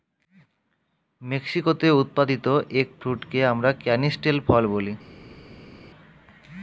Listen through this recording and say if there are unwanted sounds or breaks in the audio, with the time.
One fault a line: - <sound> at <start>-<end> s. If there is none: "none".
none